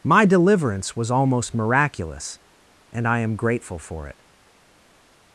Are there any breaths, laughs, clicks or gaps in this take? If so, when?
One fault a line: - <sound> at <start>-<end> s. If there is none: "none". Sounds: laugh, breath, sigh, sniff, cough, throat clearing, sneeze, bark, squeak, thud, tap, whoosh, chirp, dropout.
none